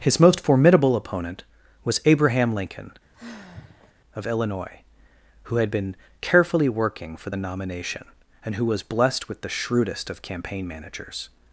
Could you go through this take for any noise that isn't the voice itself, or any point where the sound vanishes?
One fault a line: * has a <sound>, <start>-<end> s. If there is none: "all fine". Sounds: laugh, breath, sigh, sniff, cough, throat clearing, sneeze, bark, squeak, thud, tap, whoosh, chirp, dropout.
* has a sigh, 3.1-3.9 s